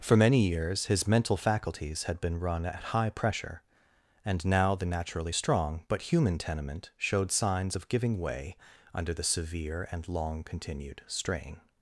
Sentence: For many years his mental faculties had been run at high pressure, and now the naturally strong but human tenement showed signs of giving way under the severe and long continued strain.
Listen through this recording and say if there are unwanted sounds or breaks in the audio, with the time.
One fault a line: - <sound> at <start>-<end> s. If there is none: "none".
none